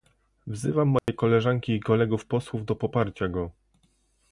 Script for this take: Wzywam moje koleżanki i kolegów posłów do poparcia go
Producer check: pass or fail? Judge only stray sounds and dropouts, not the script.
fail